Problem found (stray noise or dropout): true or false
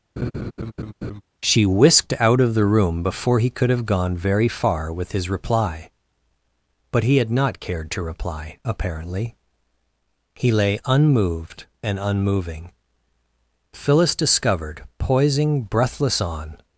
true